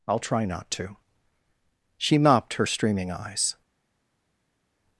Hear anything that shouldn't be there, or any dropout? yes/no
no